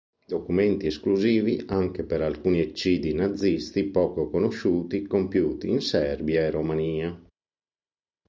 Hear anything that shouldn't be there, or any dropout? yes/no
no